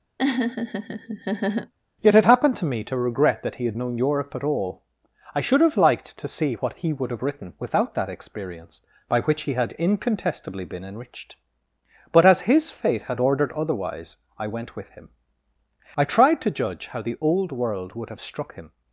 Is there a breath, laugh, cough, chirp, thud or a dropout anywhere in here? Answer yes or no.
yes